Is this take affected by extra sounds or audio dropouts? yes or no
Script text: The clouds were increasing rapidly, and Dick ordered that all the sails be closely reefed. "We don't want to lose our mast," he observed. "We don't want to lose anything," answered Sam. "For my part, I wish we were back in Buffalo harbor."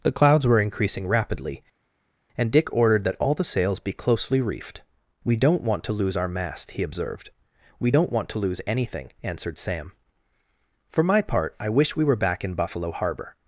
no